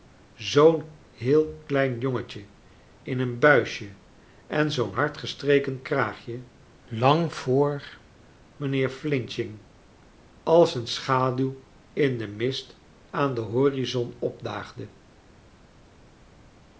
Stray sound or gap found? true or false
false